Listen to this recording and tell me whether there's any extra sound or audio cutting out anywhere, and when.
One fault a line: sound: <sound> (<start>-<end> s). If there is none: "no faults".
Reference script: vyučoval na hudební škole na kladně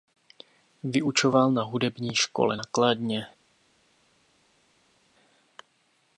no faults